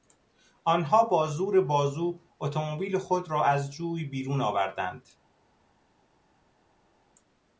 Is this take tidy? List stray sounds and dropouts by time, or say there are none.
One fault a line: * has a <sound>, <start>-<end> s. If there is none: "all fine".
all fine